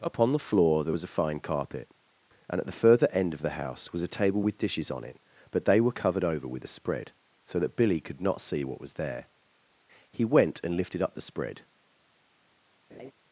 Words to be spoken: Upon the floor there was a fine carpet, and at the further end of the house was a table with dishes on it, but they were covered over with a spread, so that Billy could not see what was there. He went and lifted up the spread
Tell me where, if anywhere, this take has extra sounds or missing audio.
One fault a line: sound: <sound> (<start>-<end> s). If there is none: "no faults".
sound: laugh (12.9-13.1 s)